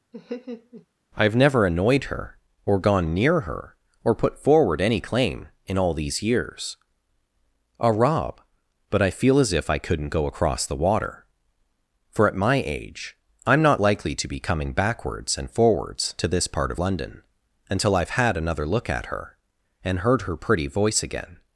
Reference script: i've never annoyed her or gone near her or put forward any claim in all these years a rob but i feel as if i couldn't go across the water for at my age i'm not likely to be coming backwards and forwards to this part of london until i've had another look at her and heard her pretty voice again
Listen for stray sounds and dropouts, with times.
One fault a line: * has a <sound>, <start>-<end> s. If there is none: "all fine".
* has a laugh, 0.1-0.9 s